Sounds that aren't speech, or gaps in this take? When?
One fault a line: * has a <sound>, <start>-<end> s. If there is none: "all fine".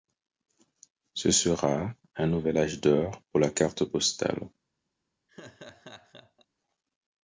* has a laugh, 5.3-6.5 s